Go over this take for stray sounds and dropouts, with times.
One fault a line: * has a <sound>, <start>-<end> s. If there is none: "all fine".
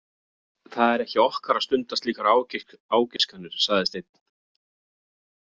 * has a dropout, 3.2-3.2 s